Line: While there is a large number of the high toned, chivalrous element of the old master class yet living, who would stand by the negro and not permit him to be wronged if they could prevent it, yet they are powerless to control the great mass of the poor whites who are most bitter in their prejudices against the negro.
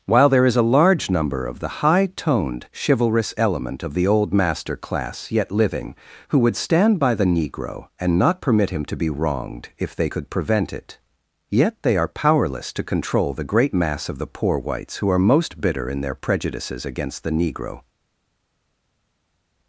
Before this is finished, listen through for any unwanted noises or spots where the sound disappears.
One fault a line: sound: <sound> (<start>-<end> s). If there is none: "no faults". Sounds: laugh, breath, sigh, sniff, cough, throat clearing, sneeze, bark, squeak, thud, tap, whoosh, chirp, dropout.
no faults